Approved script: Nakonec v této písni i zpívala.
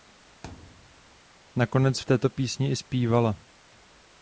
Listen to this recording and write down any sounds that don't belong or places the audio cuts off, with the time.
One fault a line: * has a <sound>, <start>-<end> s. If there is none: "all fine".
* has a thud, 0.4-1.2 s